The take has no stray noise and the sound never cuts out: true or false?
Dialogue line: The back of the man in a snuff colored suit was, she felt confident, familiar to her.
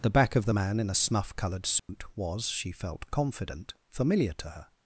false